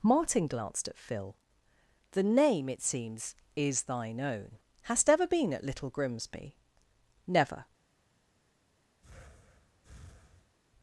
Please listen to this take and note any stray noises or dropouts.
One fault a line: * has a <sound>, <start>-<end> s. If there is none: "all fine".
* has a breath, 9.0-10.6 s